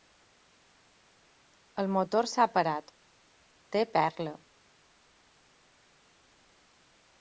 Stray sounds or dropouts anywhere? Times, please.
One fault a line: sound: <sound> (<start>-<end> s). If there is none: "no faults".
no faults